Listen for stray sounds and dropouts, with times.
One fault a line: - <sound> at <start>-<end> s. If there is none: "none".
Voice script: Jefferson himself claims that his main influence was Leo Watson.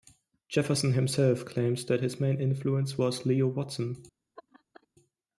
- laugh at 4.4-4.9 s